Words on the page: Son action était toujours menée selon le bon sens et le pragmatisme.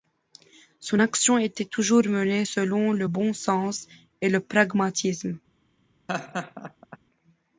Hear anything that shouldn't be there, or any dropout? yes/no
yes